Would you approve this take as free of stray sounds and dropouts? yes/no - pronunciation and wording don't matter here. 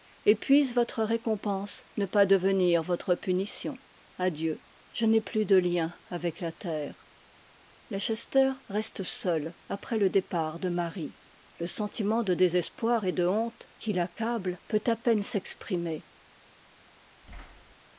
no